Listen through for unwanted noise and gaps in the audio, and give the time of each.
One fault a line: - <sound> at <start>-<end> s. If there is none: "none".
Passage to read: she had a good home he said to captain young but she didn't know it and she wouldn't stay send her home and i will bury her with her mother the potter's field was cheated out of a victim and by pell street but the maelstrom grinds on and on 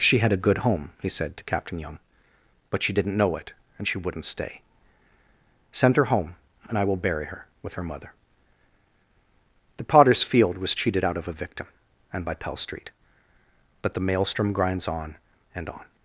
none